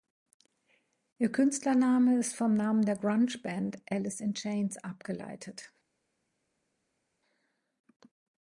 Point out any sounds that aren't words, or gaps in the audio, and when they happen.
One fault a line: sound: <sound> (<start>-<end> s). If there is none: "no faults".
no faults